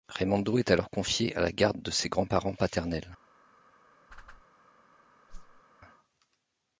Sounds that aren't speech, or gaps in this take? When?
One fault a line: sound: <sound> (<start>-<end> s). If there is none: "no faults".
sound: whoosh (4.1-4.4 s)
sound: whoosh (5.3-5.6 s)